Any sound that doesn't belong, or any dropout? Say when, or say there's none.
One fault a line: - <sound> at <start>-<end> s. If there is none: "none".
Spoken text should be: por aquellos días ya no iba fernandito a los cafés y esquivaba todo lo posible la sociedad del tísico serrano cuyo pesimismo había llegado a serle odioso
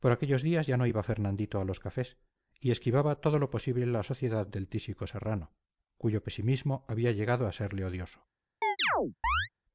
- chirp at 8.6-9.5 s